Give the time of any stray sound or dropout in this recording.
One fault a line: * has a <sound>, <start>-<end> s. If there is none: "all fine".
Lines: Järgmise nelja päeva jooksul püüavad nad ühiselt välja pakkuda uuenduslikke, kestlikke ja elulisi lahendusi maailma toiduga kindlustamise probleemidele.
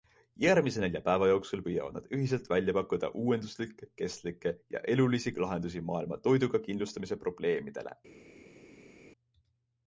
all fine